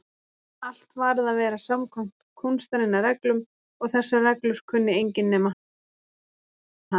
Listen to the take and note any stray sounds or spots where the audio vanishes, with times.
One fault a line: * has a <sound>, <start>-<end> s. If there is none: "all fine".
all fine